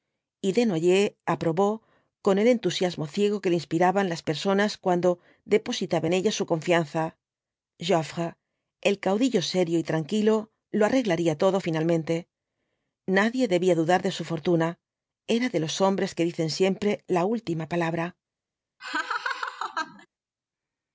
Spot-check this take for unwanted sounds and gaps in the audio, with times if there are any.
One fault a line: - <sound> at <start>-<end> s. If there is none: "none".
- laugh at 18.8-20.1 s